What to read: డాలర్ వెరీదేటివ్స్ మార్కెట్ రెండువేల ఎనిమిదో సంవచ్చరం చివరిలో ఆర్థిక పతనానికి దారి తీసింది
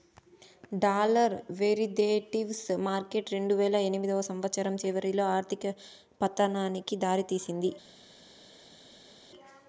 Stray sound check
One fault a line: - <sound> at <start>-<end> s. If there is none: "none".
none